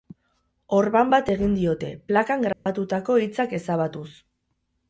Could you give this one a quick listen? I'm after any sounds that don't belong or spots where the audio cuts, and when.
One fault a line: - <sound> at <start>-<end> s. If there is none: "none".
- dropout at 2.5-2.7 s